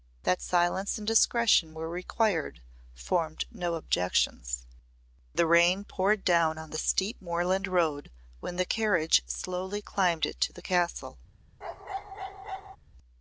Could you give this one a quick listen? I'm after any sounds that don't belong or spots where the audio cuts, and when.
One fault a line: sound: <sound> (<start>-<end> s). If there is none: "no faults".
sound: bark (11.6-12.8 s)